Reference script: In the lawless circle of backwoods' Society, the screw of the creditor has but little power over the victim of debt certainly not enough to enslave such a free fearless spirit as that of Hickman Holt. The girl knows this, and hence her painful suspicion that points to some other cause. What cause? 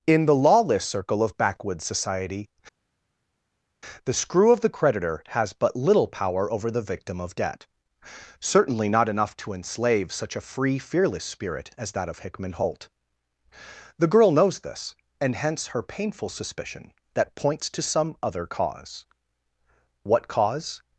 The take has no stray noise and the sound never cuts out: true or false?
true